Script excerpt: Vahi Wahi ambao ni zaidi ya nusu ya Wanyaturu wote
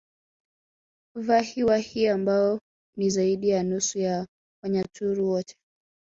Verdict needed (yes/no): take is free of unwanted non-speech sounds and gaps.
yes